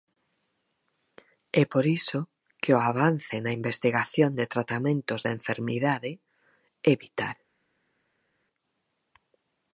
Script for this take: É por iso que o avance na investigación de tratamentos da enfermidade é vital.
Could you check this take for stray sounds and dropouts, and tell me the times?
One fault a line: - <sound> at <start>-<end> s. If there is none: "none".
none